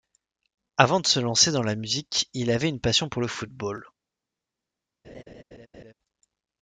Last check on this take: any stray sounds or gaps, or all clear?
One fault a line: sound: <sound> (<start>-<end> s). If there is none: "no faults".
sound: laugh (5.0-5.9 s)